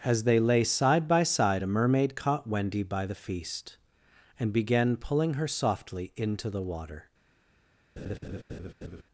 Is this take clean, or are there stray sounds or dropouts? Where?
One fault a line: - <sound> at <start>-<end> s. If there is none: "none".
- laugh at 8.0-9.0 s